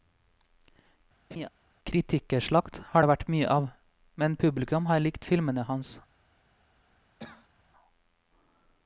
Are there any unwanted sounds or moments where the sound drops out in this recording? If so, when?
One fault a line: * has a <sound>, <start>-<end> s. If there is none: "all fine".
* has a laugh, 1.3-1.5 s
* has a cough, 7.2-7.6 s